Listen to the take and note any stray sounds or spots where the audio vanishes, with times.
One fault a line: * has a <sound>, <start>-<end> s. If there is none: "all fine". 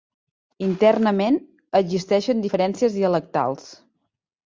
all fine